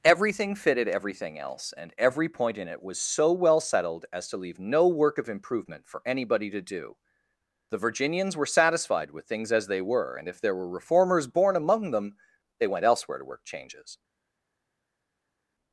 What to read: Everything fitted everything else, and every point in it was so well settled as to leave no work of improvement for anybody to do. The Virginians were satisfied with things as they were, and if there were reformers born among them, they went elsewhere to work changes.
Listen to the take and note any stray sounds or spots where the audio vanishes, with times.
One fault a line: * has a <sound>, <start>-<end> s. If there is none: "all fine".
all fine